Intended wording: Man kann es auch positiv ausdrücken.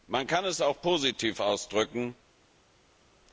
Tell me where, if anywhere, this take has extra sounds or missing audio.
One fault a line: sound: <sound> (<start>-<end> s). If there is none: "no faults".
no faults